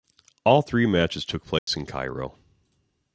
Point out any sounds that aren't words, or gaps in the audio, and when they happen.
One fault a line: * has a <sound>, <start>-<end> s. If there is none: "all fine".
* has a dropout, 1.6-1.7 s